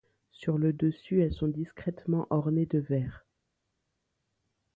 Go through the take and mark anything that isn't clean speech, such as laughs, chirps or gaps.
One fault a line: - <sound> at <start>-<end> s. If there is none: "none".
none